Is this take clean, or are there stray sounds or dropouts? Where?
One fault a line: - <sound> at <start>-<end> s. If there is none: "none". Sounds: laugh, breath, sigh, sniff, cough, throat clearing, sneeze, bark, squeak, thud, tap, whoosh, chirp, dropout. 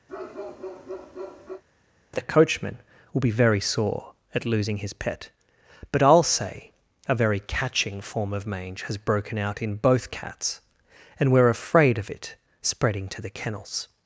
- bark at 0.1-1.6 s